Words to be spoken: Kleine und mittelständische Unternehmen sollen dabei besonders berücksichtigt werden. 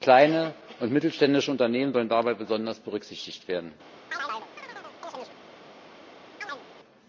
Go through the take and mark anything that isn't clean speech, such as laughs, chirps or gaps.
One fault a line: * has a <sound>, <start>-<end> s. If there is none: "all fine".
* has a chirp, 4.1-5.4 s
* has a chirp, 6.4-6.7 s